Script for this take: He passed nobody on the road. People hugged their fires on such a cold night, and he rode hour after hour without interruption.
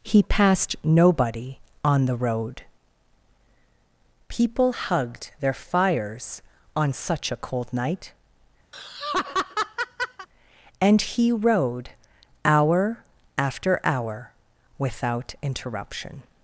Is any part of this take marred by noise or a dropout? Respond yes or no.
yes